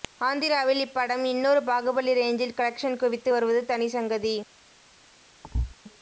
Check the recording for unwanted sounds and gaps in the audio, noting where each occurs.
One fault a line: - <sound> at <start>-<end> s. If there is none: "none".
- thud at 5.4-5.8 s